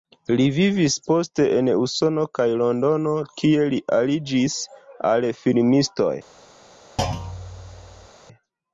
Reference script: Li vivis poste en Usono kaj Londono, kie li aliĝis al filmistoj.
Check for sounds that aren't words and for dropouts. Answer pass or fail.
fail